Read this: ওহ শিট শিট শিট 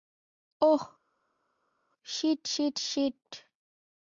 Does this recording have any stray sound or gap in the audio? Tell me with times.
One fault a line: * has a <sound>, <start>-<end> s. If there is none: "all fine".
all fine